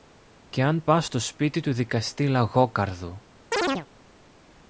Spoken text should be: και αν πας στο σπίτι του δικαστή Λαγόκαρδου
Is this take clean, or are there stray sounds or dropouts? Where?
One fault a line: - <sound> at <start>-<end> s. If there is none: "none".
- chirp at 3.5-3.9 s